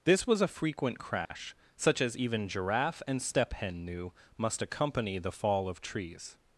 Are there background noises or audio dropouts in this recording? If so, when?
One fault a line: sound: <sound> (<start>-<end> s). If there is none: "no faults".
sound: dropout (1.2-1.3 s)